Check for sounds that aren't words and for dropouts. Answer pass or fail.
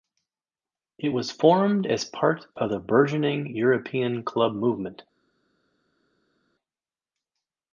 pass